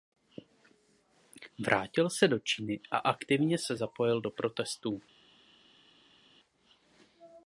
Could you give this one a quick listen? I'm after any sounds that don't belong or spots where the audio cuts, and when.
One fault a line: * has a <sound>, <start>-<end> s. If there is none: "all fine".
all fine